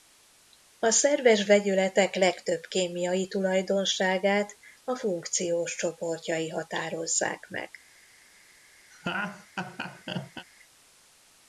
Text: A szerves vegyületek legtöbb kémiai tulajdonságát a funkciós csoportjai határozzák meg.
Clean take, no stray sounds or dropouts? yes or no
no